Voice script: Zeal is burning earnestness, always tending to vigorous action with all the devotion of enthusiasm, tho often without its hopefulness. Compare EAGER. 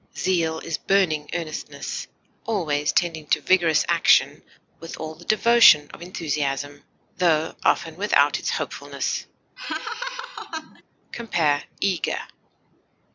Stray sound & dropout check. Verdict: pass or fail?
fail